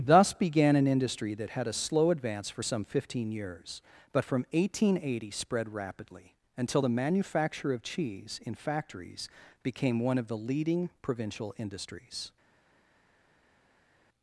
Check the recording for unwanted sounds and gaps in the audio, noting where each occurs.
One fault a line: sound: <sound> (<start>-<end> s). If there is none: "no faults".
no faults